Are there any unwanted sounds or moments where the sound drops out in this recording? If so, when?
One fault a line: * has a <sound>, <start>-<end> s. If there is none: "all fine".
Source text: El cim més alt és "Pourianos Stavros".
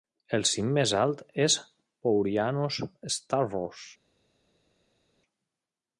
all fine